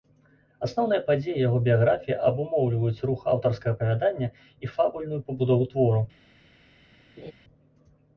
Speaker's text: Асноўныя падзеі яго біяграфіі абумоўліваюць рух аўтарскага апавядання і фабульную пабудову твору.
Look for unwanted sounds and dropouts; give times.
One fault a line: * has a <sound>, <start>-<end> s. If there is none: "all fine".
* has a laugh, 7.2-7.3 s